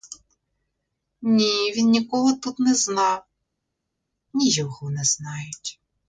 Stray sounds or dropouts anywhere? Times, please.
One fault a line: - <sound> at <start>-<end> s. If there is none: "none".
none